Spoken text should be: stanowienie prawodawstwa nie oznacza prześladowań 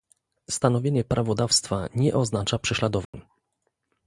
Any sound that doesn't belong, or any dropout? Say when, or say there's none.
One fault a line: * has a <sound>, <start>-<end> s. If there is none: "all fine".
* has a dropout, 3.1-3.1 s